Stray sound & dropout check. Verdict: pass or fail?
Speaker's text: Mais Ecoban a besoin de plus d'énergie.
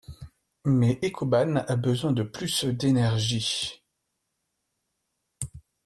pass